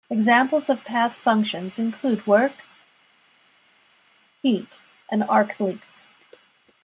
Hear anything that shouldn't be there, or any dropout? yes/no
no